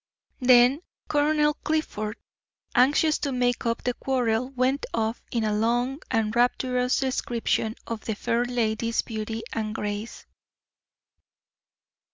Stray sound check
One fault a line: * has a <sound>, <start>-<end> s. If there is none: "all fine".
all fine